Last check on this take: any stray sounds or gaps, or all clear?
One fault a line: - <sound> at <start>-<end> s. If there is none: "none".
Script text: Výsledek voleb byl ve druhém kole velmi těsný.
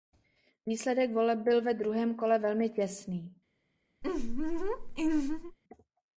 - laugh at 4.0-5.6 s